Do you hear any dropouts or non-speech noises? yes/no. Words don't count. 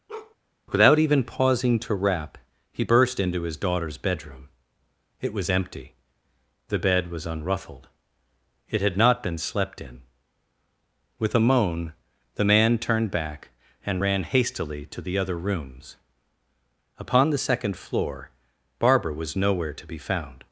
yes